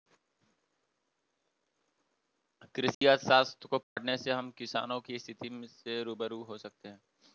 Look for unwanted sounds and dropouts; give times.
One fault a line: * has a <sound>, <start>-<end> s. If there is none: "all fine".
* has a dropout, 2.9-3.0 s
* has a dropout, 3.8-4.0 s